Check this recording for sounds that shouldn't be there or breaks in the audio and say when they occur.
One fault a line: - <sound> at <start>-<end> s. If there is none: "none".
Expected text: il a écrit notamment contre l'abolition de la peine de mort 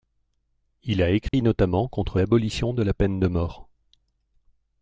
- dropout at 1.3-1.3 s